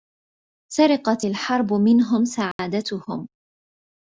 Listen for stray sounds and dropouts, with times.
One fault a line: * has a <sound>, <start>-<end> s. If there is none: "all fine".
* has a dropout, 2.5-2.6 s